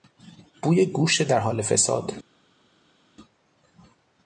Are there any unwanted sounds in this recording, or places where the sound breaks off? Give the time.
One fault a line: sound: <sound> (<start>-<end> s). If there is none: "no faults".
no faults